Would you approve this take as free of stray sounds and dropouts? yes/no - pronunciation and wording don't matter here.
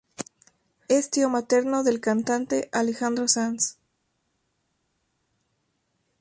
yes